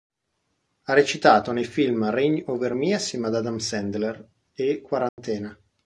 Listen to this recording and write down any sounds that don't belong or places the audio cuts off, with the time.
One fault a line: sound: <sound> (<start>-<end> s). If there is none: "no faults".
sound: dropout (5.1-5.2 s)